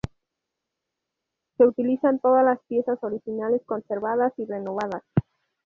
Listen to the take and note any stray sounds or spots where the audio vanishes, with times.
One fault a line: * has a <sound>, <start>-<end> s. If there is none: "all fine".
all fine